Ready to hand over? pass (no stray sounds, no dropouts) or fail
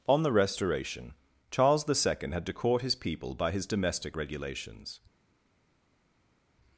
pass